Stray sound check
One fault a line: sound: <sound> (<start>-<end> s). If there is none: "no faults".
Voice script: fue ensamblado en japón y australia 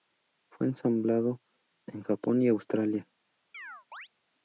sound: chirp (3.5-4.1 s)